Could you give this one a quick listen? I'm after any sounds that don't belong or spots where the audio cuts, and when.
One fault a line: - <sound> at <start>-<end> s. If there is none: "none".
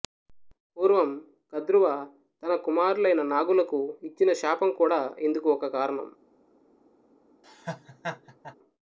- laugh at 7.4-8.6 s